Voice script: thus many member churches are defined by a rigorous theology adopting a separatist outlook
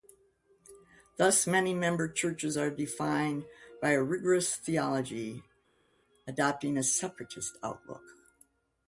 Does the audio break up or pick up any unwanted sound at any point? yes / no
no